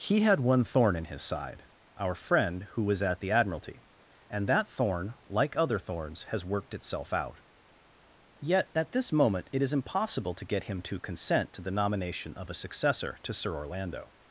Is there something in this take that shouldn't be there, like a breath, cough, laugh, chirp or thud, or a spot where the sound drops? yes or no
no